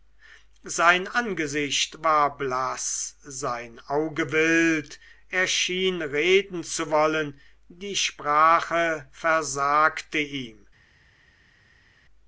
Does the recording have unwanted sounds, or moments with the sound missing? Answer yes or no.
no